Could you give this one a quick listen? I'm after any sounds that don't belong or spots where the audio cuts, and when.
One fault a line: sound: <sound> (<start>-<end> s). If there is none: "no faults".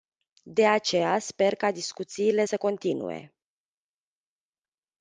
no faults